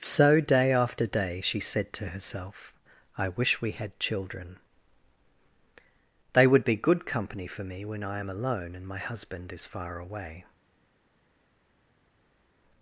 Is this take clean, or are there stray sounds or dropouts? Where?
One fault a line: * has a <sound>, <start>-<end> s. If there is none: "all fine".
all fine